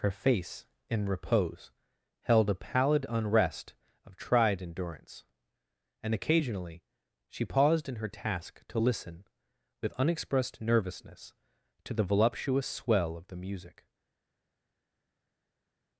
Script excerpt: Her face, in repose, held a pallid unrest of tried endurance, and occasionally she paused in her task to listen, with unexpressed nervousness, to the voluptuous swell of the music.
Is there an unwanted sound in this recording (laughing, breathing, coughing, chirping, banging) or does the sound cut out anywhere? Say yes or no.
no